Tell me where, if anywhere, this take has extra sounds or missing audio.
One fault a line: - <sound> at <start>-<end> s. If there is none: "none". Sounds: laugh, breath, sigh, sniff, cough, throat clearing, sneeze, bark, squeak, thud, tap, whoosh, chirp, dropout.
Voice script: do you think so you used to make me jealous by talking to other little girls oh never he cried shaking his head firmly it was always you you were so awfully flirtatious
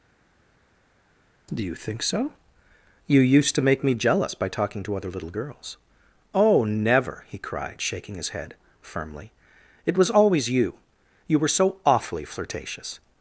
none